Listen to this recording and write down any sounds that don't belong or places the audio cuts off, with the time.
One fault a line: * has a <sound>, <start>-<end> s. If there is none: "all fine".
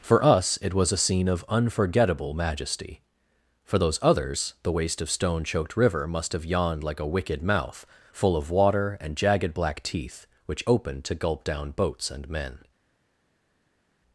all fine